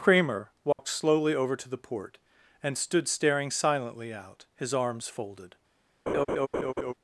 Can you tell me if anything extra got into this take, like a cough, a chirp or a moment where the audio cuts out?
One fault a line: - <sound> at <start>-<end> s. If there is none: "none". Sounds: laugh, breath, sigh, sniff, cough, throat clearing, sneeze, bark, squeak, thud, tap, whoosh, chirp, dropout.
- dropout at 0.7-0.8 s
- laugh at 6.1-6.9 s